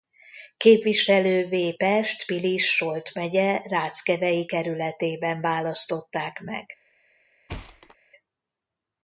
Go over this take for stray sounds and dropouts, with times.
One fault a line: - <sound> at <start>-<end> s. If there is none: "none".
- thud at 7.5-8.0 s